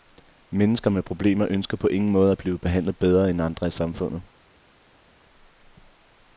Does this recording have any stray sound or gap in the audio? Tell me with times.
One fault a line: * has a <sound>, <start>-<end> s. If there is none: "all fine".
all fine